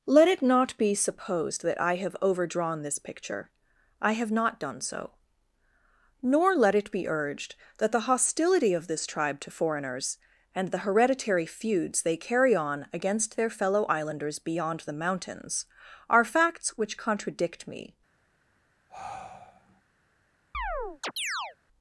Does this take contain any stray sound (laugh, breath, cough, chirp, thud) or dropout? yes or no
yes